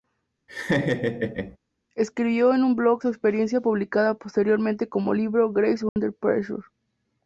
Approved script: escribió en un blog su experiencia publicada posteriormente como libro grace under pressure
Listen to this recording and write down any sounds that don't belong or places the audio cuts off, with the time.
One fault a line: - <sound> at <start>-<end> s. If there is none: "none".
- laugh at 0.5-1.6 s
- dropout at 5.9-6.0 s